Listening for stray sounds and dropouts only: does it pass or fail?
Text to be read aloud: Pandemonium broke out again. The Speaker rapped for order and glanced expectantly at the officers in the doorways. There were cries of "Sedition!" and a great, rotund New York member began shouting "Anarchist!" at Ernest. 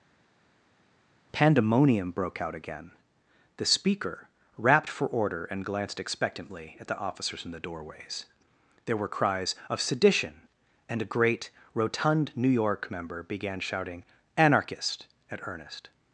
pass